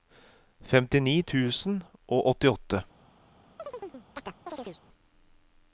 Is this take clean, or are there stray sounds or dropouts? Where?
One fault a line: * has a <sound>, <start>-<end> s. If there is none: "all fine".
* has a chirp, 3.6-4.8 s